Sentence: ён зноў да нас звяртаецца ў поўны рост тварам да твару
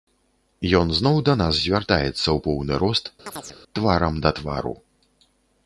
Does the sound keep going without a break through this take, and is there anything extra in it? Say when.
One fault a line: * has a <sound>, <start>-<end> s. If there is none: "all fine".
* has a chirp, 3.3-3.6 s